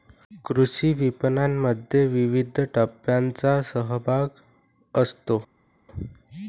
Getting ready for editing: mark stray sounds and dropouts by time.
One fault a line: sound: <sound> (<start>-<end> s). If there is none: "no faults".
no faults